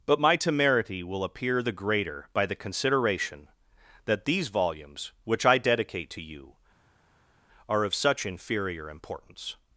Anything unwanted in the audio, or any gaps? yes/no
no